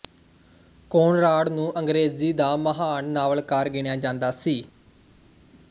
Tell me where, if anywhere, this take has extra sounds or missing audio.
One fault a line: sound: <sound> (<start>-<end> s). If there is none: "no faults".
no faults